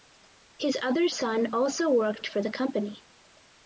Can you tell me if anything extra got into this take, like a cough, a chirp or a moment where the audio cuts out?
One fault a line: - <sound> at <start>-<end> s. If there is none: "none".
none